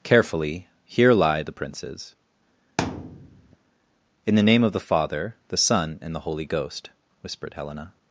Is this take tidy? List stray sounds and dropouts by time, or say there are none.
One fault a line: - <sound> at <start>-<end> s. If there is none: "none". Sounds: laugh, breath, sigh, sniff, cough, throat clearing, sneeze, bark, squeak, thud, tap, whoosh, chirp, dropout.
- thud at 2.8-3.6 s